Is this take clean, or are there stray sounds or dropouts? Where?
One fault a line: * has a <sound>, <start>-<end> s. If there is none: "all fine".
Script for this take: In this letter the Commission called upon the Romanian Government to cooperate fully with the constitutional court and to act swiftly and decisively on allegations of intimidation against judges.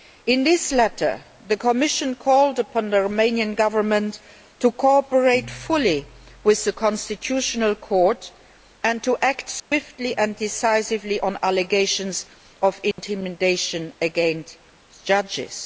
* has a dropout, 9.6-9.7 s
* has a dropout, 12.9-13.0 s